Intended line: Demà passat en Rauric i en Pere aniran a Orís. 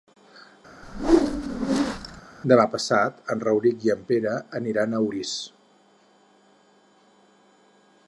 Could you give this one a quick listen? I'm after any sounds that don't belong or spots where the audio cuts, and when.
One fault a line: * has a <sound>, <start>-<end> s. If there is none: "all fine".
* has a whoosh, 0.8-2.2 s